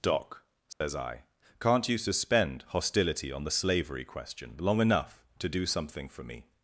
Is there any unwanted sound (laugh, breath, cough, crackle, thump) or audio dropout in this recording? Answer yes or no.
yes